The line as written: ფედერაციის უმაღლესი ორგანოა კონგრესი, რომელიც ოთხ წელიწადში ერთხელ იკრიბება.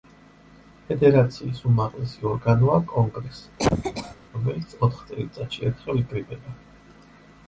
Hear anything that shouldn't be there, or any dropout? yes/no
yes